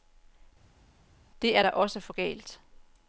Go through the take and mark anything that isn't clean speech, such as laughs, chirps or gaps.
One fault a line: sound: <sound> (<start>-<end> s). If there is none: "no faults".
no faults